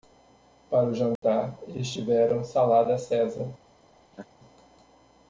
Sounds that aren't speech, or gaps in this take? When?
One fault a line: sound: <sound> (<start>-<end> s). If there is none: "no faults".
sound: dropout (1.2-1.2 s)
sound: laugh (4.1-4.3 s)